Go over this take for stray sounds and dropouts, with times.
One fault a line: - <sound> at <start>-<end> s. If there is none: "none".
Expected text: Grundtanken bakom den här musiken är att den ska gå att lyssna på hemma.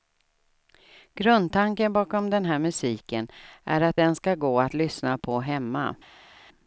none